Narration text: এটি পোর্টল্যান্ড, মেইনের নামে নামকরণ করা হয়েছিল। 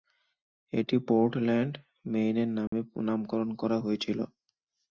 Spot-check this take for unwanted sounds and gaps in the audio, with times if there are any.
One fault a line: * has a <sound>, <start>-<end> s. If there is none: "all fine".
* has a dropout, 2.7-2.7 s